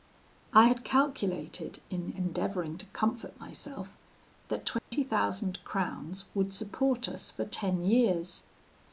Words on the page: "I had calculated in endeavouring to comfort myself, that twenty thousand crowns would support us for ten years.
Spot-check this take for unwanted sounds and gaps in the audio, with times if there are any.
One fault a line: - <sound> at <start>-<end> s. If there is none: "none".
- dropout at 4.8-4.9 s